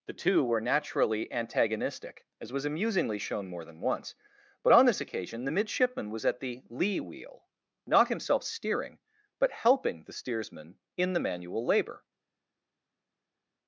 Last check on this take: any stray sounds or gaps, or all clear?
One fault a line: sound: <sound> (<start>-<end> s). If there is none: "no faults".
no faults